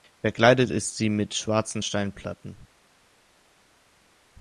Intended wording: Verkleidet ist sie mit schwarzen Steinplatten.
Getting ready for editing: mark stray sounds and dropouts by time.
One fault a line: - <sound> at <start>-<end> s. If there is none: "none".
none